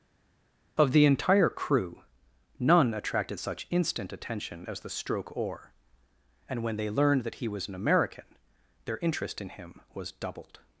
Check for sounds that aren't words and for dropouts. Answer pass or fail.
pass